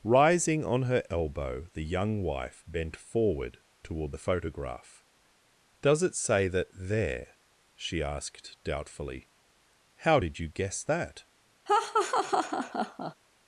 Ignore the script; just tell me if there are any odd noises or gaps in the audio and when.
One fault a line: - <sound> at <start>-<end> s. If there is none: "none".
- laugh at 11.7-13.1 s